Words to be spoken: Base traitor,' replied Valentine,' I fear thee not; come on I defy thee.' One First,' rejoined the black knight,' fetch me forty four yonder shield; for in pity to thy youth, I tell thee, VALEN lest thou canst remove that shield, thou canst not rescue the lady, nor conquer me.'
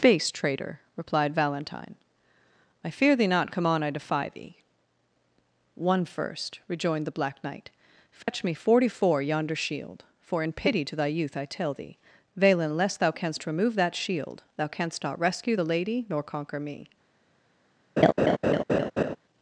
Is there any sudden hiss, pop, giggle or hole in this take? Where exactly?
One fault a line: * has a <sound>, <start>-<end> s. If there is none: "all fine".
* has a dropout, 8.2-8.3 s
* has a laugh, 18.0-19.2 s